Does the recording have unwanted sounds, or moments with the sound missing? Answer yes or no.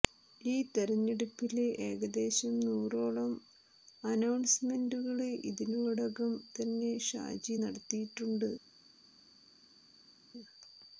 no